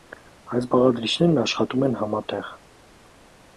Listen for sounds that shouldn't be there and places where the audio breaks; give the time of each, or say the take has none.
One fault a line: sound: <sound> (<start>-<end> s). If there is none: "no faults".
no faults